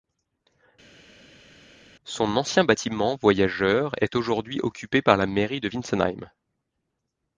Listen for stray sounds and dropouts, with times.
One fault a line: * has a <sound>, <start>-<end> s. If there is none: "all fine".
all fine